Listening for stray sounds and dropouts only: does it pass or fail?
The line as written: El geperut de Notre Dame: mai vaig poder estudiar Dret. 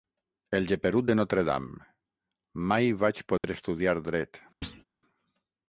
fail